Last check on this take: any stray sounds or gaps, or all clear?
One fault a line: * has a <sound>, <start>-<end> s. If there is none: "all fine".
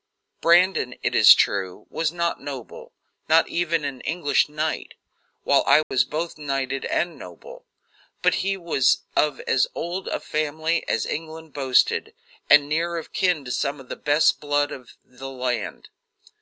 * has a dropout, 5.8-5.9 s